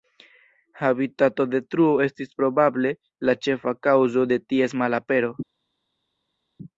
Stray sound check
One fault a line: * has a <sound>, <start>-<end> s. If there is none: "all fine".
all fine